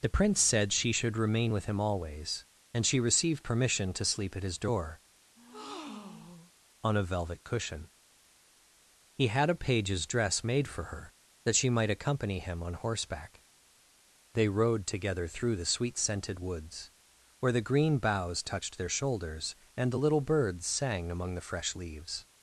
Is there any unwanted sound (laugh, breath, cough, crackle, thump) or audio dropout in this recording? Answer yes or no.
yes